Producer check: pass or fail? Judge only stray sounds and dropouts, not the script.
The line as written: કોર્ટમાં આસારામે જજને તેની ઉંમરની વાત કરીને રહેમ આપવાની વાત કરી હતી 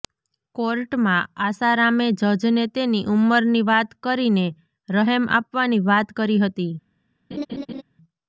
fail